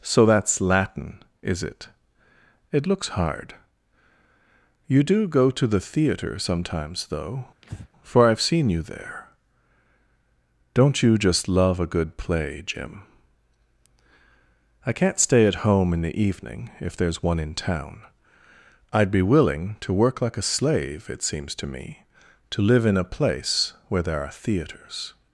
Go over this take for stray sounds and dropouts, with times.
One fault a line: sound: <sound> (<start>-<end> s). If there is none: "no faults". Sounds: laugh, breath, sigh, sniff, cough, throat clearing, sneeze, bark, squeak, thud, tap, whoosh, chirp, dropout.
sound: breath (7.6-7.9 s)